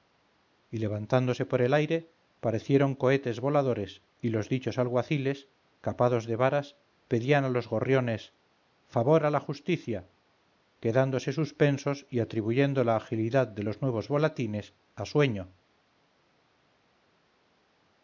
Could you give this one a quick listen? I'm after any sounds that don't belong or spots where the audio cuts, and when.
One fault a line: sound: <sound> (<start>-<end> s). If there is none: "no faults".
no faults